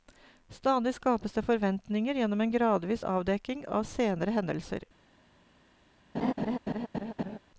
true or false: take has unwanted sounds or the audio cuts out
true